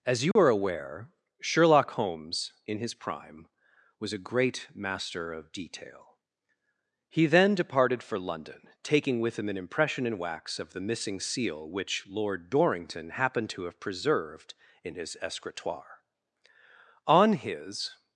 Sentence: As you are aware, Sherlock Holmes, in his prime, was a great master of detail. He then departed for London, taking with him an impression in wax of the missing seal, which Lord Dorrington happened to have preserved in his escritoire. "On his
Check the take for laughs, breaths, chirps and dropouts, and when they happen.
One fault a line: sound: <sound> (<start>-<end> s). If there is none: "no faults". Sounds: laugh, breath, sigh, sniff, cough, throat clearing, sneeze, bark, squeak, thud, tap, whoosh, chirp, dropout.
sound: dropout (0.3-0.4 s)